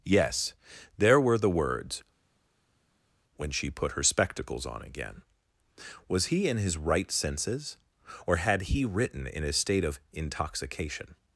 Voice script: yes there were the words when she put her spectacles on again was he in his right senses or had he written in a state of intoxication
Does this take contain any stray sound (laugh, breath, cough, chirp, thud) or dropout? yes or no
no